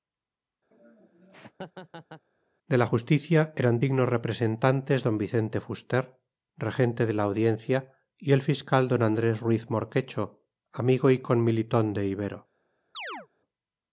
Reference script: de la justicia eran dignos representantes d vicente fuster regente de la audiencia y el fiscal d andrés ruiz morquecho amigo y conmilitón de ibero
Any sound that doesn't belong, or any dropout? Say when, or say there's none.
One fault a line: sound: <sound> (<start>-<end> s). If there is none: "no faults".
sound: laugh (0.7-2.2 s)
sound: chirp (12.9-13.3 s)